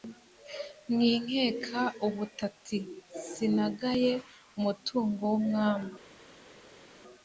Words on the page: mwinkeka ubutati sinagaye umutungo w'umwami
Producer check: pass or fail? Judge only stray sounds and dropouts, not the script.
pass